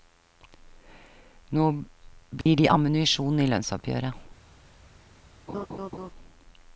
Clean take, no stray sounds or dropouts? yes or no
no